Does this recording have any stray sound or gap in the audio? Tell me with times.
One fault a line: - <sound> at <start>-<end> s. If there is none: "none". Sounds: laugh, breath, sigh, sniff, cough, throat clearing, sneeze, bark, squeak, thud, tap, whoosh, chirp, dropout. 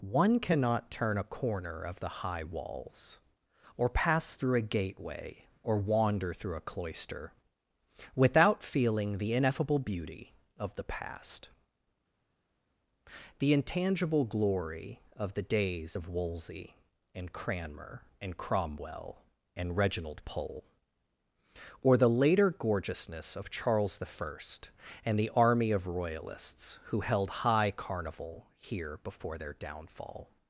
none